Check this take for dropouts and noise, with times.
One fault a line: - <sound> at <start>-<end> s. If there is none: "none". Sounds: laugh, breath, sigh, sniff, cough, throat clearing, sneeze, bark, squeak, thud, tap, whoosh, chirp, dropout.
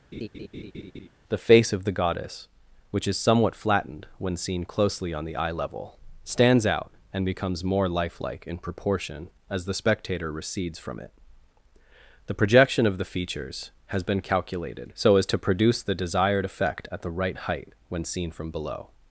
- laugh at 0.1-1.1 s